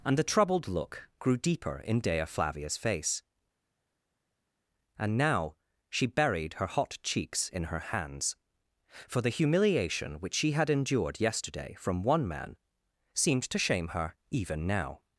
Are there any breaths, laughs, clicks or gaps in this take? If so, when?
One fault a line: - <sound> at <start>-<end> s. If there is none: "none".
none